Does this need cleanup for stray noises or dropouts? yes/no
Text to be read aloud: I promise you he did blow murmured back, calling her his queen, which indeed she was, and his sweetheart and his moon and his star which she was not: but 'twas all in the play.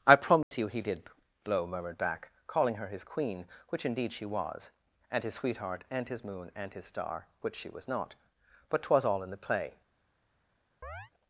yes